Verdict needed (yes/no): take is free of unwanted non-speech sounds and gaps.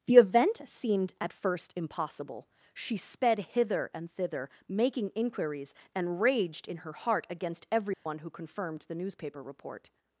no